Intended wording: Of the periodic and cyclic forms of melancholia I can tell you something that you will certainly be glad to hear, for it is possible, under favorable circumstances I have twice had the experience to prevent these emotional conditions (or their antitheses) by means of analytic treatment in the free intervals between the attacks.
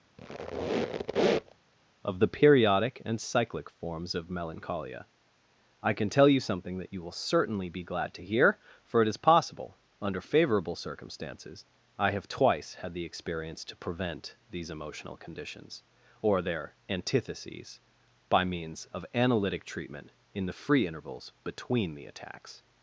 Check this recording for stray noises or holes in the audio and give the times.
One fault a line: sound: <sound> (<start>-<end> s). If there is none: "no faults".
sound: squeak (0.2-1.6 s)